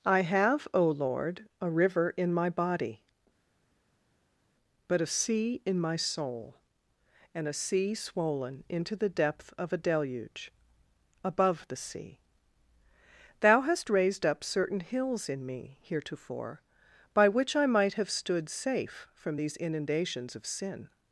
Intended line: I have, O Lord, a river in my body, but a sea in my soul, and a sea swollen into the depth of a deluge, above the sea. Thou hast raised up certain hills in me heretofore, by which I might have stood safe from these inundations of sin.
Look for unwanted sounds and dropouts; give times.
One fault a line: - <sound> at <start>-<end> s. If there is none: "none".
none